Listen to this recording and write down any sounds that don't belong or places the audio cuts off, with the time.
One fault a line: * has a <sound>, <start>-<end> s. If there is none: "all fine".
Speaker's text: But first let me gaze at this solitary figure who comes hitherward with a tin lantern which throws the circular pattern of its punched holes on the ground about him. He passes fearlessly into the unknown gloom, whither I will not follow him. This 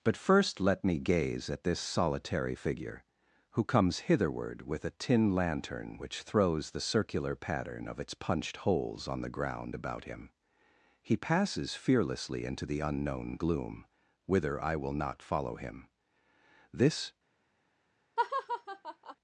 * has a laugh, 18.2-19.2 s